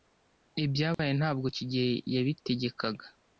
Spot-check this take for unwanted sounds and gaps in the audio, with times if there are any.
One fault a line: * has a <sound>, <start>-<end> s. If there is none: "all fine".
* has a dropout, 0.9-1.0 s